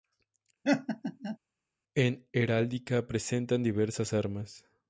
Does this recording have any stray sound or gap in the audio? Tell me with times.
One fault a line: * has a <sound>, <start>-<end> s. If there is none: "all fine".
* has a laugh, 0.6-1.4 s